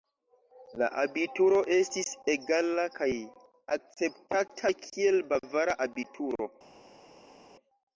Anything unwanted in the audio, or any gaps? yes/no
no